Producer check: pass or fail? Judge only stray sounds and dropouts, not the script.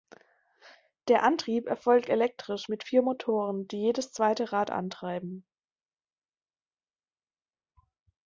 pass